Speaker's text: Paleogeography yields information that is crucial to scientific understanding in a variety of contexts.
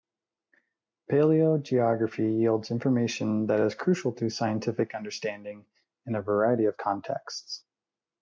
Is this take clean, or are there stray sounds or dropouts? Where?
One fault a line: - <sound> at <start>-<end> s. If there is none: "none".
none